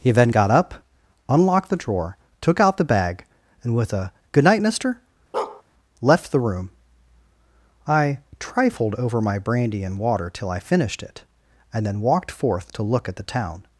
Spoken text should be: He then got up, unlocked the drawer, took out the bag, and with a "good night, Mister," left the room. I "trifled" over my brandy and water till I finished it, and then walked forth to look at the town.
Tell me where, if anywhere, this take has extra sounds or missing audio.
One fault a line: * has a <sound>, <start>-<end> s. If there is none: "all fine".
* has a bark, 5.3-5.6 s